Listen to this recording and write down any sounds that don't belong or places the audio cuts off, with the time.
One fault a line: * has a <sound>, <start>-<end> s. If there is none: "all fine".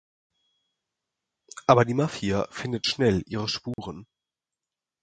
* has a dropout, 3.7-3.8 s